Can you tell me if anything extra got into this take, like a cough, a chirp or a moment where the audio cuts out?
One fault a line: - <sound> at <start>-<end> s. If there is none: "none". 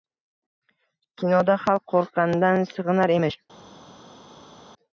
none